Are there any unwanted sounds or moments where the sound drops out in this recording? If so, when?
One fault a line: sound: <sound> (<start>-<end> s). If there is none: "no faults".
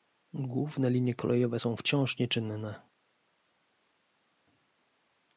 no faults